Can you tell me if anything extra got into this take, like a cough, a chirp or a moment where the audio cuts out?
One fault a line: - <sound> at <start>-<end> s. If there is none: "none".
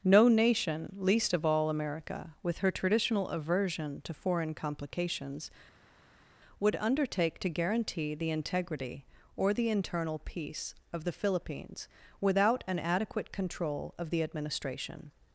none